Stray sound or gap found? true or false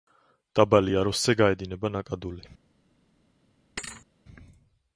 true